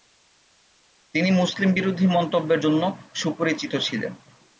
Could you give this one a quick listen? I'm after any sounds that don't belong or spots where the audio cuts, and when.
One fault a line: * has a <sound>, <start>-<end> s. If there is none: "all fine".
all fine